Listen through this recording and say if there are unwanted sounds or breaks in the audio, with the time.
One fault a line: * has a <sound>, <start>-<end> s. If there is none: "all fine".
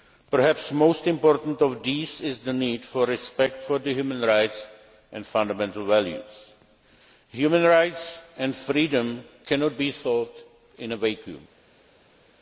all fine